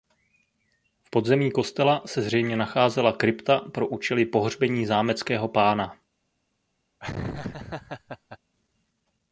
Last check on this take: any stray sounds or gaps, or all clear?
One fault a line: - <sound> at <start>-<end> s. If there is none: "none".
- laugh at 7.0-8.4 s